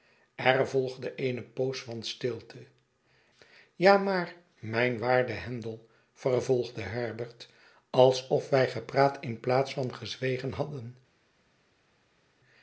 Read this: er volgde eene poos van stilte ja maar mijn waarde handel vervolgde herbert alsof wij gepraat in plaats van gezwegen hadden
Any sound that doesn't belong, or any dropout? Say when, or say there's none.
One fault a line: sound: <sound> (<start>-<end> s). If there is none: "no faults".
no faults